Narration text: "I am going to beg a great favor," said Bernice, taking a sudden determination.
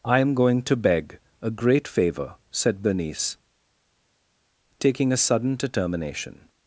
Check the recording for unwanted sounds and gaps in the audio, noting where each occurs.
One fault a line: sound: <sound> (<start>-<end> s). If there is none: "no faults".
no faults